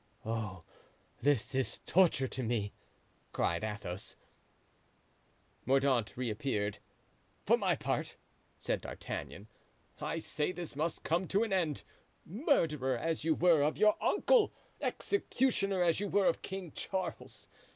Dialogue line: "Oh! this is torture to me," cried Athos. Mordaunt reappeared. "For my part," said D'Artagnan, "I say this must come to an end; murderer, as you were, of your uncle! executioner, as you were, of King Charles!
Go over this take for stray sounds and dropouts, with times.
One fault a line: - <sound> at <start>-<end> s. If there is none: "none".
none